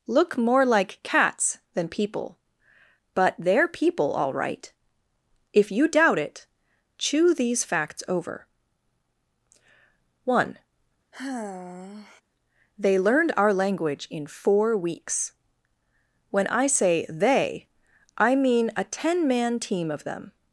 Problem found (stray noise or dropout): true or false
true